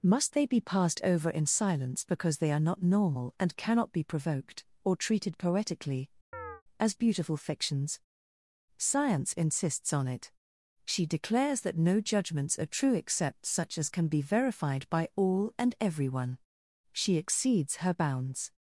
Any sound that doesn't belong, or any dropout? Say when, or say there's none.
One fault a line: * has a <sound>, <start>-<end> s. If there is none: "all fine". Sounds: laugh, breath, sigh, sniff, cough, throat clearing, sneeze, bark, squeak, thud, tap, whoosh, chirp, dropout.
* has a chirp, 6.3-6.6 s